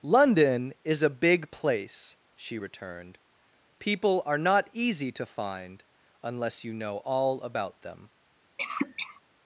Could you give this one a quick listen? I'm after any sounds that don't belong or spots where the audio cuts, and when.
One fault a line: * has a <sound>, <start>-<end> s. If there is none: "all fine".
* has a cough, 8.6-9.2 s